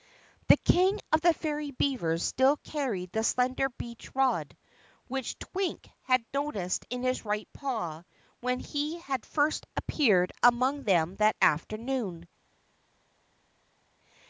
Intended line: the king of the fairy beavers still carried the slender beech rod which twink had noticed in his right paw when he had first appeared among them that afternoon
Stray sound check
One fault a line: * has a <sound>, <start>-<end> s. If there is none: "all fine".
all fine